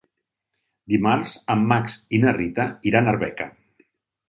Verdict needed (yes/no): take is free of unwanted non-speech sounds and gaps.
yes